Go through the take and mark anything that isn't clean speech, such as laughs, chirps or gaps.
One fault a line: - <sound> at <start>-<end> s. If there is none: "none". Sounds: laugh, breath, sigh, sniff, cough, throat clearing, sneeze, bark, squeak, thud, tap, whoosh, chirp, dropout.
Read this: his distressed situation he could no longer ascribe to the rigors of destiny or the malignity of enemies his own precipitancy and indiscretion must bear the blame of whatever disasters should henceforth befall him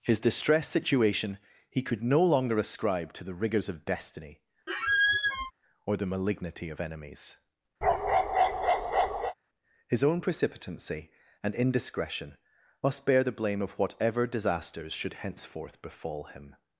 - squeak at 4.7-5.5 s
- bark at 7.8-9.3 s